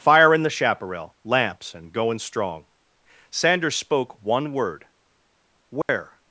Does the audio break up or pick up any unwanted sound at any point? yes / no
yes